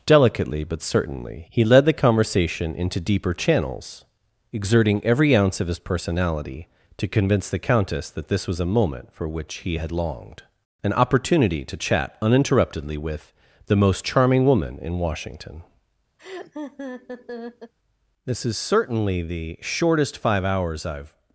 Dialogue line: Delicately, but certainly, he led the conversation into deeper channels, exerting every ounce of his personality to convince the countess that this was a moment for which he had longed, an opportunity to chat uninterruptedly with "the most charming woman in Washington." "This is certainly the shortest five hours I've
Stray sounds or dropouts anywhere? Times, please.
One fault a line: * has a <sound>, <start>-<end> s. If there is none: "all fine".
* has a laugh, 16.2-17.7 s